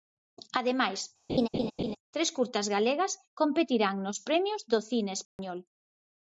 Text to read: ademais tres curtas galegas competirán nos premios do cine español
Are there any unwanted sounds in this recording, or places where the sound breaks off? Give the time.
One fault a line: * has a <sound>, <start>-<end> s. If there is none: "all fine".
* has a laugh, 1.3-2.0 s
* has a dropout, 5.2-5.4 s